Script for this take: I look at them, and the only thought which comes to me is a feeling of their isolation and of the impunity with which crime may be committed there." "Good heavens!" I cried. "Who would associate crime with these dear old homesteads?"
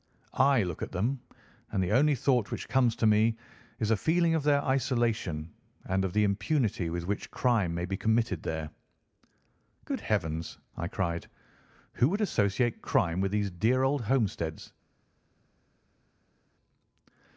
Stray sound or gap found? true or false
false